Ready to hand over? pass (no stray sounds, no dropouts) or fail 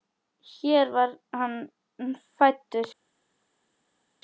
pass